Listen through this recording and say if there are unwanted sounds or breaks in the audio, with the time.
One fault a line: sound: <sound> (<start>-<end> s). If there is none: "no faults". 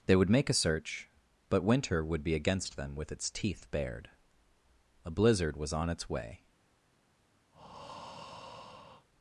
sound: breath (7.5-9.1 s)